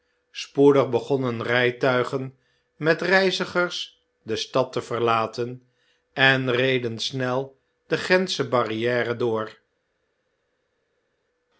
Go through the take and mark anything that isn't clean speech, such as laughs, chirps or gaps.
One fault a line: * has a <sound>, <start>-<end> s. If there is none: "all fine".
all fine